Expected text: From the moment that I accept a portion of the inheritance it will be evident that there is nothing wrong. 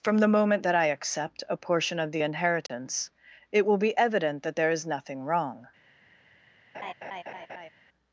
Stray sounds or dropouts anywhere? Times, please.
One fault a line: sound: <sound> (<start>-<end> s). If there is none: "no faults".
sound: dropout (2.7-2.7 s)
sound: laugh (6.7-7.7 s)